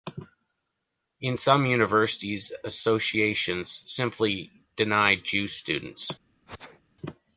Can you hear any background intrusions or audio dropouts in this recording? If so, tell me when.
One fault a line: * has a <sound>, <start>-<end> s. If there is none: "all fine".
* has a sneeze, 6.5-6.8 s